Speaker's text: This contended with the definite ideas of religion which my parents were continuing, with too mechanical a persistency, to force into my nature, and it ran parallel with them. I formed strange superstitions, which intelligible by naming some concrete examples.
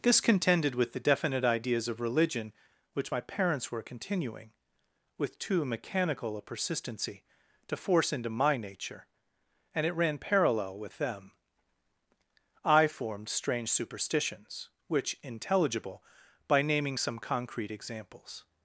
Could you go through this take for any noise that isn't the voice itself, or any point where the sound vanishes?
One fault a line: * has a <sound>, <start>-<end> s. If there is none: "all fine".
all fine